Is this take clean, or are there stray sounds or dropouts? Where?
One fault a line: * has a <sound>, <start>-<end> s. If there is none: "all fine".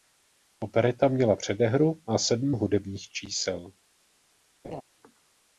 * has a laugh, 4.6-4.8 s